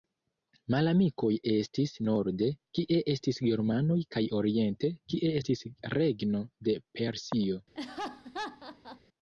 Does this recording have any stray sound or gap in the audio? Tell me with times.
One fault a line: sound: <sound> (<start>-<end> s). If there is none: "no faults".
sound: laugh (7.7-9.0 s)